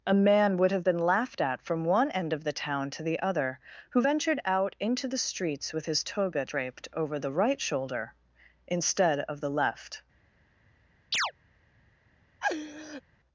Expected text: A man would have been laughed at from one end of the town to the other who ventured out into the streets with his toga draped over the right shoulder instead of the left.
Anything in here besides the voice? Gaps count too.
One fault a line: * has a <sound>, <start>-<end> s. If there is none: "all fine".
* has a chirp, 11.1-11.3 s
* has a laugh, 12.4-13.0 s